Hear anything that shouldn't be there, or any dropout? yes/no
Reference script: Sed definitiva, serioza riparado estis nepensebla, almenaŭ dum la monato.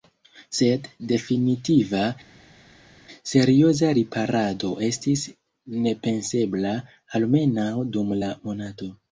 no